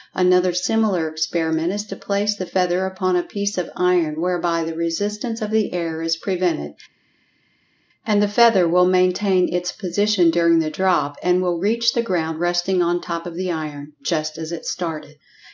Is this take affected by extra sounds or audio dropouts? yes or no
no